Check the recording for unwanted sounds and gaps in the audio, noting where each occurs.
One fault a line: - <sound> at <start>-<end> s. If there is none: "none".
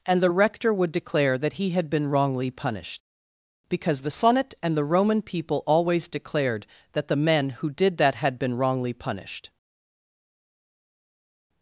none